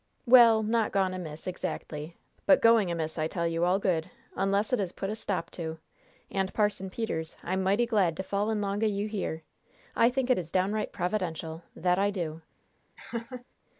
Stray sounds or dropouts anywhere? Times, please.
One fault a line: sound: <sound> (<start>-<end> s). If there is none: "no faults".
sound: laugh (13.0-13.5 s)